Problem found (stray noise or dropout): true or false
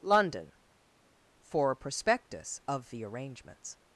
false